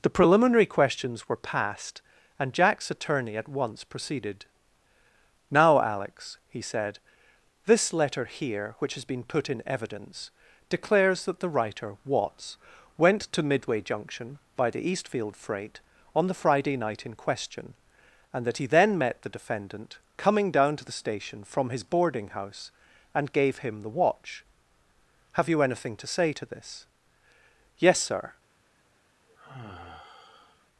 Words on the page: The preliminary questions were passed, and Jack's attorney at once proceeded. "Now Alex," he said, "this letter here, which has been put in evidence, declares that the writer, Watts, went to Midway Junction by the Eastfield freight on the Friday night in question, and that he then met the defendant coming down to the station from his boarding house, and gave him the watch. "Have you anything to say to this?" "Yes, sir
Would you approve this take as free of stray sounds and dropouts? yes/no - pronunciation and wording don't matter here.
no